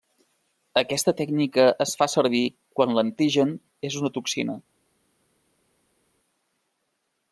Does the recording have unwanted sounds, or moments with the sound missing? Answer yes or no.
no